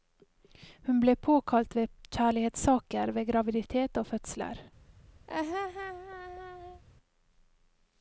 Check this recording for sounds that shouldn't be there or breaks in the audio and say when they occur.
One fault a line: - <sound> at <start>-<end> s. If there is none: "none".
- laugh at 5.3-6.8 s